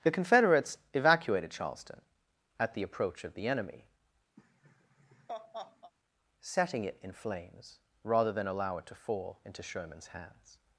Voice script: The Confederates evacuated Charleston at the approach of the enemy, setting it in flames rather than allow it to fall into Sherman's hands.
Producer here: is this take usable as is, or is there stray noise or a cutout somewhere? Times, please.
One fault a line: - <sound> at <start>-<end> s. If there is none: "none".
- laugh at 4.4-5.9 s